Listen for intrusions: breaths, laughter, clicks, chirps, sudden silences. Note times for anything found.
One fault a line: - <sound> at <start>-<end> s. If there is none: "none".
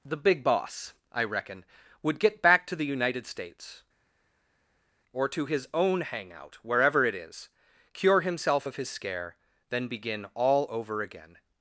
none